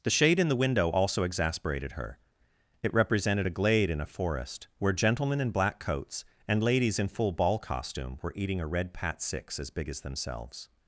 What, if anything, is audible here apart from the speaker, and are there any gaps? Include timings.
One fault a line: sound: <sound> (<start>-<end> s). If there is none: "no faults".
no faults